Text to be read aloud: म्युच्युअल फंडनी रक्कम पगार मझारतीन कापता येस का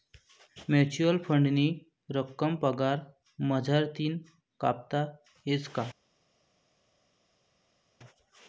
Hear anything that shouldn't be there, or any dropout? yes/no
no